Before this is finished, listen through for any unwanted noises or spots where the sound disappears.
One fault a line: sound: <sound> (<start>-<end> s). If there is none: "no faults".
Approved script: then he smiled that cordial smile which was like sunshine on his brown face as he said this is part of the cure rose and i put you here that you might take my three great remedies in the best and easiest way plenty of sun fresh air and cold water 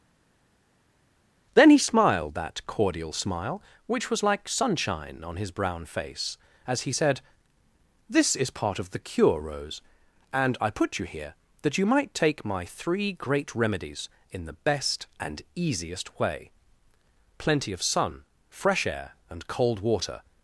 no faults